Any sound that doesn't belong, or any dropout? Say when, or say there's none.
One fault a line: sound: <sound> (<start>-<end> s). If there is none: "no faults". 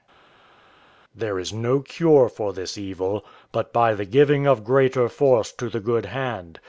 no faults